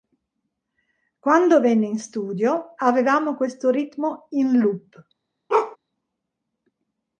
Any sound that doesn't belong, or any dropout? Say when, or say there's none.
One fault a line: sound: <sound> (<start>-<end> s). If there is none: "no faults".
sound: bark (5.5-5.8 s)